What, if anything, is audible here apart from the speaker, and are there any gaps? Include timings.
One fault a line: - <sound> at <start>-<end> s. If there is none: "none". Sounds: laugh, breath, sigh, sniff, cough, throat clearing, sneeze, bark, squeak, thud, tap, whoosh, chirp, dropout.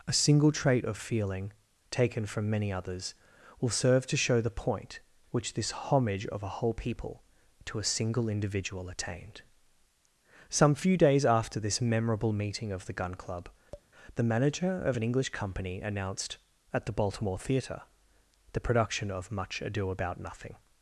- tap at 13.7-13.9 s